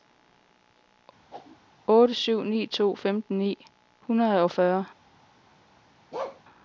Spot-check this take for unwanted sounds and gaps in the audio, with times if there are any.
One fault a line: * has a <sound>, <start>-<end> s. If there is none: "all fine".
* has a whoosh, 1.3-1.6 s
* has a bark, 6.1-6.4 s